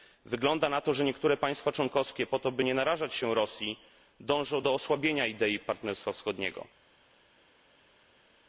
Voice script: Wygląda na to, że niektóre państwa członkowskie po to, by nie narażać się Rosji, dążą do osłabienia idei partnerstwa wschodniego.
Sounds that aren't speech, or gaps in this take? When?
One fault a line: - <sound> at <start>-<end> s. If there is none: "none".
none